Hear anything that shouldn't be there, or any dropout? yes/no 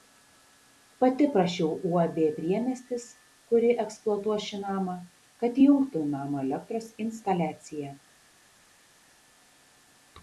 no